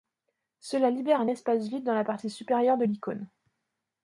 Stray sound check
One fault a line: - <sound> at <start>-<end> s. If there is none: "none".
none